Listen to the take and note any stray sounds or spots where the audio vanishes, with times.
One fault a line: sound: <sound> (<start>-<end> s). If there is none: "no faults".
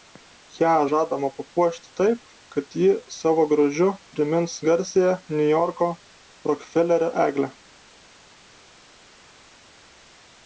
no faults